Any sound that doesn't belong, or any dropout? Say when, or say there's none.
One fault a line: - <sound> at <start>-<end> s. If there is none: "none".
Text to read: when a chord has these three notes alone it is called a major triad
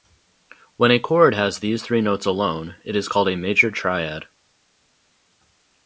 none